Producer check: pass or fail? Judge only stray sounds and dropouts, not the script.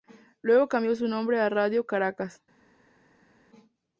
pass